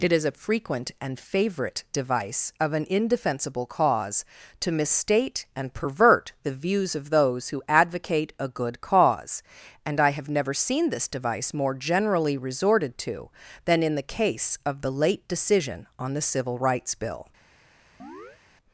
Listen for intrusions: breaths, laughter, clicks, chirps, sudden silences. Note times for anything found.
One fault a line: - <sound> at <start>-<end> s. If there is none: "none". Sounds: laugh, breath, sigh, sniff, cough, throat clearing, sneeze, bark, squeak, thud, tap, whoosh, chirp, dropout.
- chirp at 18.0-18.4 s